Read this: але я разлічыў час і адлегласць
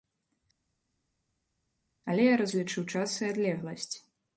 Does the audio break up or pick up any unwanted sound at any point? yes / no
no